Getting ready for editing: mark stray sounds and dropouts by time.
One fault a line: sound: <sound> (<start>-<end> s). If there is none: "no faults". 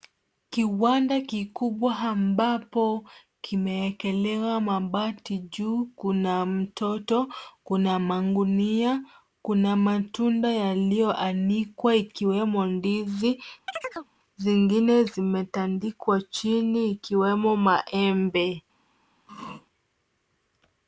sound: chirp (13.7-14.1 s)
sound: throat clearing (19.3-19.7 s)